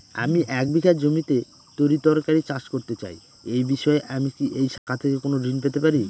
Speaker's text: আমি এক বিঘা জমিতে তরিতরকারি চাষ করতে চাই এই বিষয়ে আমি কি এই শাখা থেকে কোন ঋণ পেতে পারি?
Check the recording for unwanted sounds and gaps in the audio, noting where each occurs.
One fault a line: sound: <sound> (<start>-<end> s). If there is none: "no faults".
sound: dropout (4.8-4.9 s)